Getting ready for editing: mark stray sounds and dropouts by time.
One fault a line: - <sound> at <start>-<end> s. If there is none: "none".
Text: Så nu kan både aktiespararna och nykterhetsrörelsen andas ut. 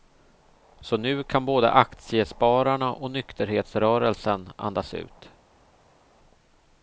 none